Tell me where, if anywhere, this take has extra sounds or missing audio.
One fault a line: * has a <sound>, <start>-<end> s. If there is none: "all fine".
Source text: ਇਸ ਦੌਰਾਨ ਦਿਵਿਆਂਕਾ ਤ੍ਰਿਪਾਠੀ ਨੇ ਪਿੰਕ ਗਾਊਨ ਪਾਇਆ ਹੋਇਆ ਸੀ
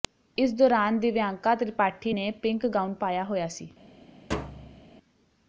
* has a thud, 4.3-4.8 s